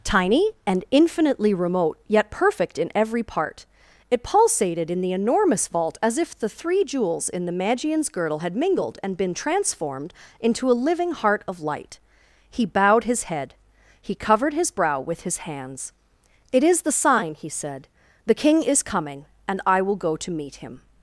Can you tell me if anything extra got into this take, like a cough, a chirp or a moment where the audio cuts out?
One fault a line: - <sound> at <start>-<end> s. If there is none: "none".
none